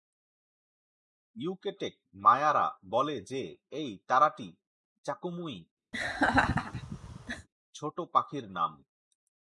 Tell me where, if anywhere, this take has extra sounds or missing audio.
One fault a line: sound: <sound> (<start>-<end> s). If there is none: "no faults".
sound: laugh (5.9-7.5 s)